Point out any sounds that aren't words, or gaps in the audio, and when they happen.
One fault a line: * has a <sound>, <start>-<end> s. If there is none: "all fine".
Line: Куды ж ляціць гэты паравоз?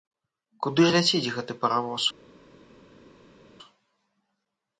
all fine